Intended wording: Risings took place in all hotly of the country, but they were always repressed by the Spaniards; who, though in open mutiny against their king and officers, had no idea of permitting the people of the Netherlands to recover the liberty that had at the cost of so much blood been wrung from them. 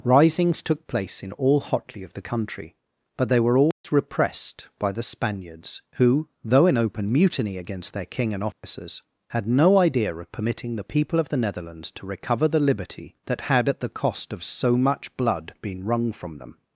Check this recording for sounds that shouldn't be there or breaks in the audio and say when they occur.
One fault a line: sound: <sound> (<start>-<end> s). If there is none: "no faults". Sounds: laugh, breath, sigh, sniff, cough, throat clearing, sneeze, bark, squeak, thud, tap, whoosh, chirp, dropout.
sound: dropout (3.7-3.8 s)
sound: dropout (8.5-8.6 s)